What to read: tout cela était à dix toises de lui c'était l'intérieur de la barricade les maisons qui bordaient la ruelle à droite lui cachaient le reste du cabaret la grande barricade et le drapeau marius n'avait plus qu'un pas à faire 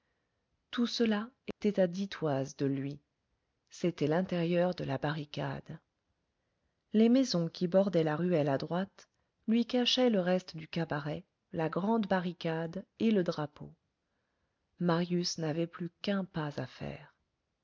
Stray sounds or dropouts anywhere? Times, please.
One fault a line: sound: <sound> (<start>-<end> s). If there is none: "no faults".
sound: dropout (1.5-1.6 s)